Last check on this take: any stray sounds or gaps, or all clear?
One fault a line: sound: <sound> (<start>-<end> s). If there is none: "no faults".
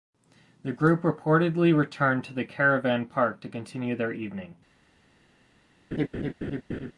sound: laugh (5.9-6.9 s)